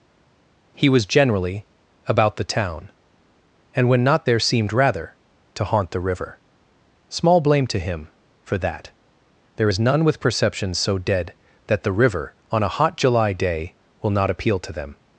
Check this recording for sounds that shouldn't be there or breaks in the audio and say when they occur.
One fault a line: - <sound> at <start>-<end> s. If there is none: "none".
none